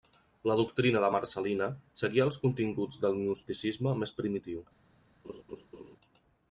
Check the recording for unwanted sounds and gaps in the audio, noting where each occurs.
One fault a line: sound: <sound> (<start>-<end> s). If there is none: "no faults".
sound: laugh (5.2-6.0 s)